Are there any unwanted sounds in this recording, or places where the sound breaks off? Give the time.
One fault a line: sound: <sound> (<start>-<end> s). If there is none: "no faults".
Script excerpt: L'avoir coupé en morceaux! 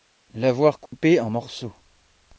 sound: dropout (0.9-0.9 s)